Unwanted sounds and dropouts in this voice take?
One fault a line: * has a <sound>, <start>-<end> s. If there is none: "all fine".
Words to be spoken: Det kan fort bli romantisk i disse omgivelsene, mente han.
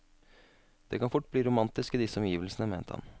all fine